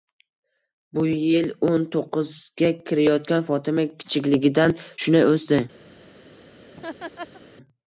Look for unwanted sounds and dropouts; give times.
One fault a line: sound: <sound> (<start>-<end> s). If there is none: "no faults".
sound: laugh (6.7-7.4 s)